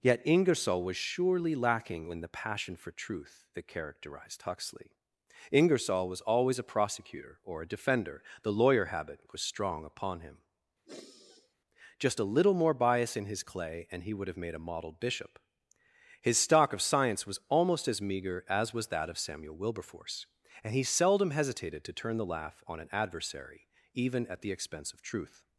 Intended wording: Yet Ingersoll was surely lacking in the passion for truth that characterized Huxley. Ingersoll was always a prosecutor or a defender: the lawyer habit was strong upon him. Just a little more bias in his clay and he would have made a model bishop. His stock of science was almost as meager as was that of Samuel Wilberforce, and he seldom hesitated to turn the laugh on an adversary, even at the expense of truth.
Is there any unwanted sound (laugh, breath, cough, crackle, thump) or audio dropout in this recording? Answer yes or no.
yes